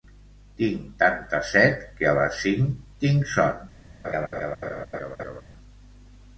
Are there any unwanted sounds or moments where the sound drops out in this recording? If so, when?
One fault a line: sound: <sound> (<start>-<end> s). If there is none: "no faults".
sound: laugh (4.0-5.4 s)